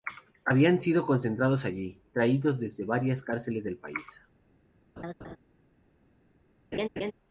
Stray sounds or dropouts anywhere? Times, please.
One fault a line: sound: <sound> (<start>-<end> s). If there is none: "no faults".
sound: laugh (5.0-5.4 s)
sound: laugh (6.7-7.1 s)